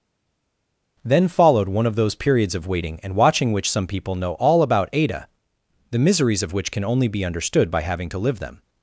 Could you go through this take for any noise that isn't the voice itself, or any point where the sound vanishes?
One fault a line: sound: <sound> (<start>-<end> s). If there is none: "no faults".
no faults